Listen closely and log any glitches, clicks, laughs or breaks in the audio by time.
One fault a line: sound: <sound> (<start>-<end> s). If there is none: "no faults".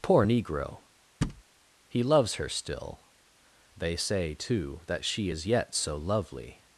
sound: thud (1.2-1.4 s)